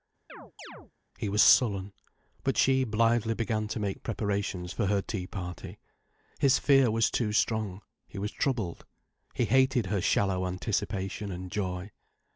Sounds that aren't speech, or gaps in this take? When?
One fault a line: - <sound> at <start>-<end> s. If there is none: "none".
- chirp at 0.3-0.9 s